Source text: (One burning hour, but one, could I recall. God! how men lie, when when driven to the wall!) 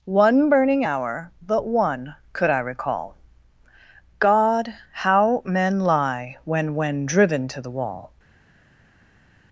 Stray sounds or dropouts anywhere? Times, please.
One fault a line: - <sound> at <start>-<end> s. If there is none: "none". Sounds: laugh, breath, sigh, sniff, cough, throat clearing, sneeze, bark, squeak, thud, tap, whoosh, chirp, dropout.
none